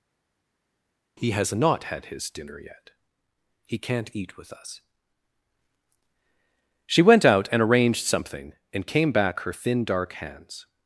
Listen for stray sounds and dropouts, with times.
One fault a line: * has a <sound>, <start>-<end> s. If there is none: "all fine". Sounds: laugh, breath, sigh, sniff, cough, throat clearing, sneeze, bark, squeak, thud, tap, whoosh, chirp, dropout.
all fine